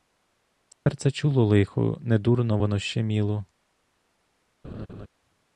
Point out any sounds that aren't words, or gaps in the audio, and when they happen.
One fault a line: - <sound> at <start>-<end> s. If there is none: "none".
- dropout at 0.7-0.9 s
- laugh at 4.6-5.1 s